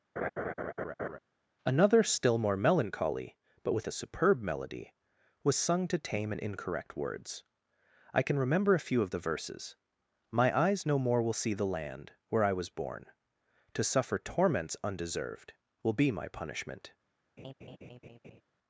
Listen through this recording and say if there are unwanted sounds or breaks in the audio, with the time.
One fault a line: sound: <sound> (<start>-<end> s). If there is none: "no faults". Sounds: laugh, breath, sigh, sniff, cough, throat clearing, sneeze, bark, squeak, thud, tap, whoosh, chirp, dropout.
sound: laugh (0.2-1.2 s)
sound: laugh (17.4-18.4 s)